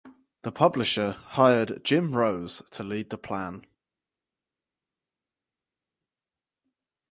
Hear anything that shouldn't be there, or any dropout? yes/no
no